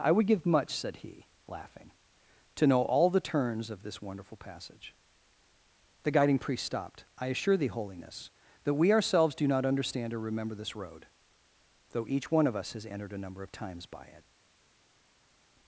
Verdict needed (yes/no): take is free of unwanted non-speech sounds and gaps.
yes